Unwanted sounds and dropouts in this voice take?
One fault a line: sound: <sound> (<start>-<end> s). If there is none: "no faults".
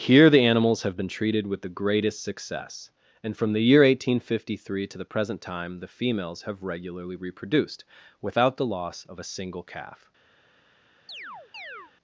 sound: chirp (11.1-11.9 s)